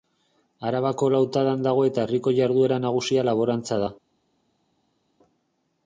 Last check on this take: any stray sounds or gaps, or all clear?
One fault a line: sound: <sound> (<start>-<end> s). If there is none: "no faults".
no faults